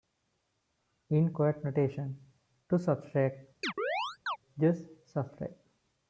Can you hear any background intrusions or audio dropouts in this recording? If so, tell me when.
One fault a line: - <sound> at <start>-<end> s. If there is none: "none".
- chirp at 3.6-4.4 s